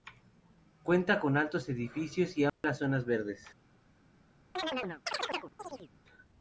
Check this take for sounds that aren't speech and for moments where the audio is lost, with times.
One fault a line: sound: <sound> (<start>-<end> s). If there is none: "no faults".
sound: dropout (2.5-2.6 s)
sound: chirp (4.6-5.9 s)